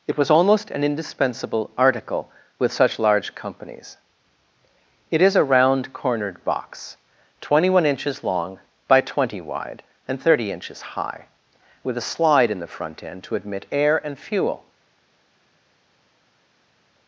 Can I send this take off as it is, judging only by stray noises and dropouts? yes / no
yes